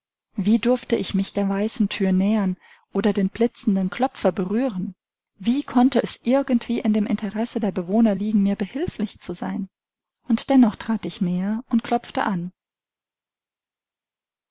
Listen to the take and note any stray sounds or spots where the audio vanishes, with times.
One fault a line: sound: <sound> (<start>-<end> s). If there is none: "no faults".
no faults